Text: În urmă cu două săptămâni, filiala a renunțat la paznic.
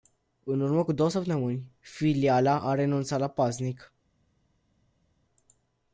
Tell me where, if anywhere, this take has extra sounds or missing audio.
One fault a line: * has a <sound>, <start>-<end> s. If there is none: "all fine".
all fine